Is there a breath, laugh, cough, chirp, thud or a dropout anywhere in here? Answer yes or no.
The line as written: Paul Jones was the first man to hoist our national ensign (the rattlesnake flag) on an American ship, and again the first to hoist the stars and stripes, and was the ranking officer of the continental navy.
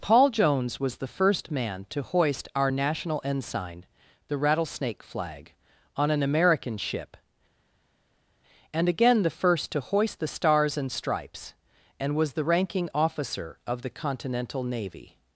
no